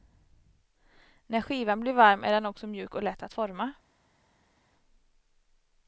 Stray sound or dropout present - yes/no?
no